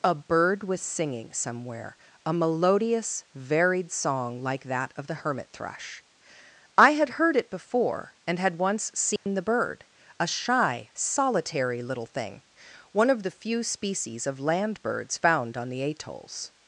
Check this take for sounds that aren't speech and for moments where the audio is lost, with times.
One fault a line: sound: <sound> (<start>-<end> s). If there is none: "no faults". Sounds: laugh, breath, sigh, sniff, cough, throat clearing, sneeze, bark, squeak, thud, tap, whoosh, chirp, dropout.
sound: dropout (9.2-9.3 s)